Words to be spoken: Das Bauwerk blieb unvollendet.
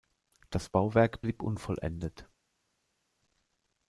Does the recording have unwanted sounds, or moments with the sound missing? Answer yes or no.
no